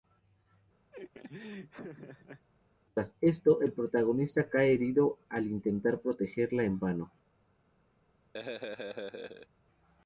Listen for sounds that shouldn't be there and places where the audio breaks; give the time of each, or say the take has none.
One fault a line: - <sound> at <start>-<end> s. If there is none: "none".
- laugh at 0.9-2.5 s
- laugh at 8.3-9.5 s